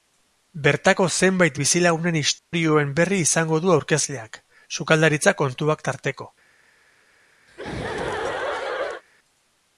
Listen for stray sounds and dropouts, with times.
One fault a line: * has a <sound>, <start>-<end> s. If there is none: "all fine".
* has a dropout, 2.4-2.5 s
* has a laugh, 7.5-9.0 s